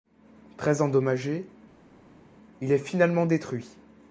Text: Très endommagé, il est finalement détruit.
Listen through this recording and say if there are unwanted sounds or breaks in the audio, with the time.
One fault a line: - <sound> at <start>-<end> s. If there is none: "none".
none